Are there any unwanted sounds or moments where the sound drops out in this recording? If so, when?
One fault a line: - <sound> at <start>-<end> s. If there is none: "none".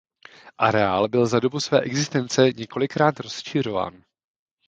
none